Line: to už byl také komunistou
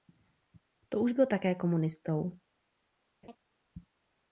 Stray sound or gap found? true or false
true